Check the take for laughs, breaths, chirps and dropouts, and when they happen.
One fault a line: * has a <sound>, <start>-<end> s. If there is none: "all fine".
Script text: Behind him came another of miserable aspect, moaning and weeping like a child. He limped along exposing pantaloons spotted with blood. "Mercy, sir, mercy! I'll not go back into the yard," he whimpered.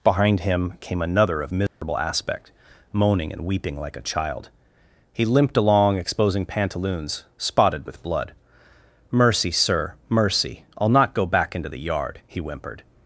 * has a dropout, 1.7-1.8 s